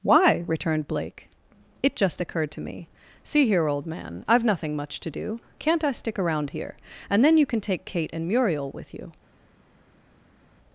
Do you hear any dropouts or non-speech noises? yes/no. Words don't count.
no